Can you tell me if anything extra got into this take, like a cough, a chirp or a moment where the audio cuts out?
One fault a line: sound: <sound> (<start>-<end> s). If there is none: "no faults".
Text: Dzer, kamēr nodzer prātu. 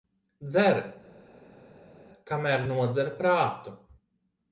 no faults